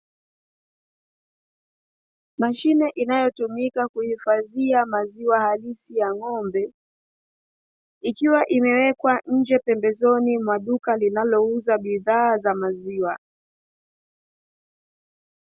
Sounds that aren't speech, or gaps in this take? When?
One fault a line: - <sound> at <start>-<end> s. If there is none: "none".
none